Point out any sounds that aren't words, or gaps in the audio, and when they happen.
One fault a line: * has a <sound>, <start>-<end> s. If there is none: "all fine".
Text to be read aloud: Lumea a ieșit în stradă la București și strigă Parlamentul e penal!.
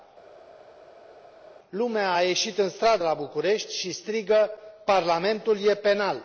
all fine